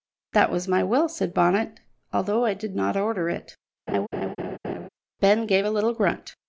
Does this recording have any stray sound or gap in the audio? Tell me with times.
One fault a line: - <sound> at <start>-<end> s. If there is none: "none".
- laugh at 3.9-4.9 s